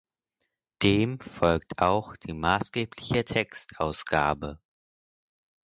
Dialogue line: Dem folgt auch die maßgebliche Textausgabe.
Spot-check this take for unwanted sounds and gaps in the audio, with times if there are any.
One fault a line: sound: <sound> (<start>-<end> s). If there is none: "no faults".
no faults